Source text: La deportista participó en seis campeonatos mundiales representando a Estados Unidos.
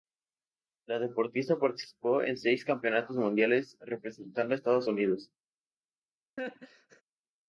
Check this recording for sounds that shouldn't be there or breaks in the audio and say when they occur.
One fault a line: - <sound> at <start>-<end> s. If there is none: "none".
- laugh at 6.4-7.0 s